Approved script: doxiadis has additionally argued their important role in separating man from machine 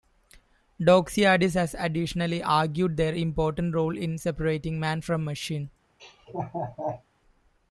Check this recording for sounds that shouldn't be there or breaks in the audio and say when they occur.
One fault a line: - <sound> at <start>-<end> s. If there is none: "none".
- laugh at 6.0-7.0 s